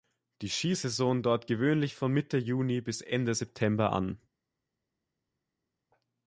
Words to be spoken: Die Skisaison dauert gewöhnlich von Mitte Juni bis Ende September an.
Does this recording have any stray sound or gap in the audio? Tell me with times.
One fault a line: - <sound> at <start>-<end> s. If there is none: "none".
none